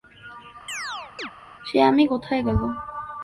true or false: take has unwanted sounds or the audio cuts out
true